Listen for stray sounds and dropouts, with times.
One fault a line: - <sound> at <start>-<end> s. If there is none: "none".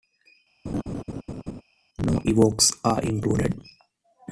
- laugh at 0.7-1.6 s